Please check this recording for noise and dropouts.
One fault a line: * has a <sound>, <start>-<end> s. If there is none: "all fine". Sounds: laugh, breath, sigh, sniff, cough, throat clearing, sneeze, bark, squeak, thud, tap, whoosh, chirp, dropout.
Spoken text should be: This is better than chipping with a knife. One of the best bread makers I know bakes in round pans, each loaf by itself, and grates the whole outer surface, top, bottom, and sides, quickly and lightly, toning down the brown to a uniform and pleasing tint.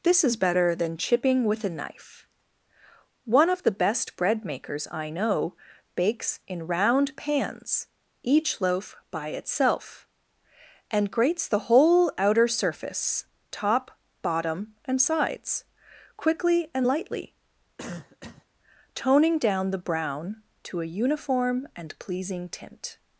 * has a cough, 17.8-18.5 s